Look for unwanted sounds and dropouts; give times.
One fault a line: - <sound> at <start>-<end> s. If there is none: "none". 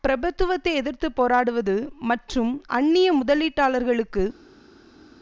none